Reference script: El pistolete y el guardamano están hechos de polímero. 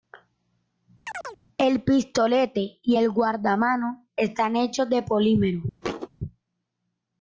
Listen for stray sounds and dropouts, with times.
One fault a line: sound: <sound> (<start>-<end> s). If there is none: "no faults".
sound: chirp (1.0-1.4 s)
sound: thud (5.8-6.1 s)